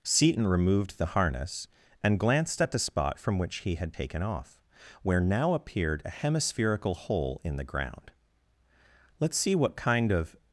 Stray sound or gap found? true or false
false